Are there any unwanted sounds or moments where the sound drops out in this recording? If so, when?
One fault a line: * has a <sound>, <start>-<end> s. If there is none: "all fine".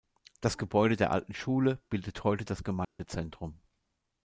* has a dropout, 2.8-3.0 s